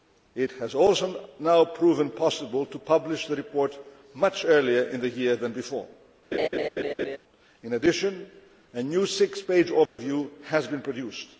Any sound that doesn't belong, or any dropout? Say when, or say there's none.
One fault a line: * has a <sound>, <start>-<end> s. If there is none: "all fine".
* has a laugh, 6.3-7.2 s
* has a dropout, 9.9-10.0 s